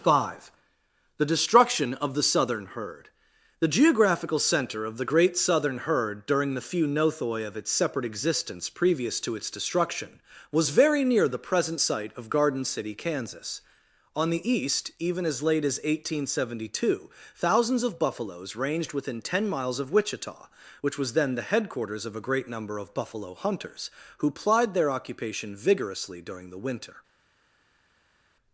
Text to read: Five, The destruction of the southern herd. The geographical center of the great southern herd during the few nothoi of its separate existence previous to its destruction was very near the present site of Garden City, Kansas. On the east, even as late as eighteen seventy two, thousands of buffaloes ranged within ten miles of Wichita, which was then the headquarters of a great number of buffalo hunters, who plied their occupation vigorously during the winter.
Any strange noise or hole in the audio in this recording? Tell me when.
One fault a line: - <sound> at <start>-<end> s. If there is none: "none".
none